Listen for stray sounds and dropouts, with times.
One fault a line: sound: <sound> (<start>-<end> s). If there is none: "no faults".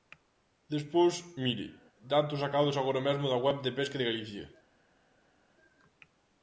no faults